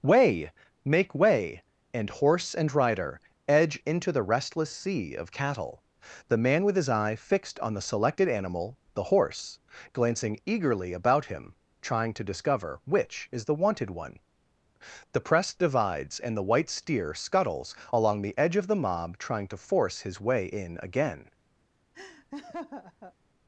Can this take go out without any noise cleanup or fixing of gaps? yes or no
no